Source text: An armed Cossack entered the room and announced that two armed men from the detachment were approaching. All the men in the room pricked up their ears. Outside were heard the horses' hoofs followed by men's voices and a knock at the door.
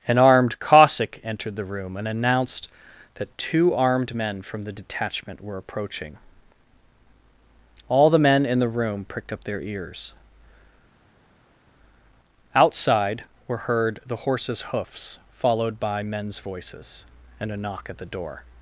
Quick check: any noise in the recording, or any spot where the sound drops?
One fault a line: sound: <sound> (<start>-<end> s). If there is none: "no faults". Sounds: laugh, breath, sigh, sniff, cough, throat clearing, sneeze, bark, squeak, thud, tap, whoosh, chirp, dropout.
no faults